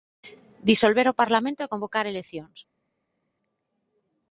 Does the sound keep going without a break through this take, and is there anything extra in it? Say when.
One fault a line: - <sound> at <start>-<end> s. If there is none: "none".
none